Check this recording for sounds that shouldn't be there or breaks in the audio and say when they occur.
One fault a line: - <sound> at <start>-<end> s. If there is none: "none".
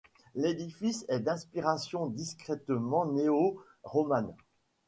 none